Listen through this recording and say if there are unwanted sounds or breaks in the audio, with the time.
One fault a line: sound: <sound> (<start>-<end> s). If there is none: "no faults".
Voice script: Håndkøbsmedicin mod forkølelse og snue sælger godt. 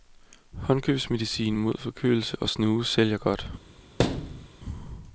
sound: thud (4.0-4.5 s)